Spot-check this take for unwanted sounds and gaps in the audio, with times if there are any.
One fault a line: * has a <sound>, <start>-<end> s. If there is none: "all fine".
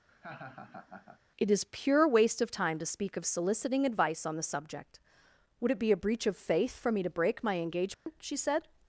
* has a laugh, 0.1-1.2 s
* has a dropout, 7.9-8.1 s